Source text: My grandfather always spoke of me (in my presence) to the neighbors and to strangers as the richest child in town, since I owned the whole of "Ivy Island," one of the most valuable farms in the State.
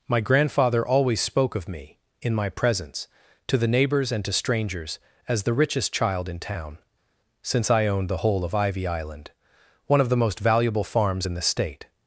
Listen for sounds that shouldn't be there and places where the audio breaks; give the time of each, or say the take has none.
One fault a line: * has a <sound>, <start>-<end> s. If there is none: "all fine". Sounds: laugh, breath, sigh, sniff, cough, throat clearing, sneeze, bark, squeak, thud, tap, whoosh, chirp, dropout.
all fine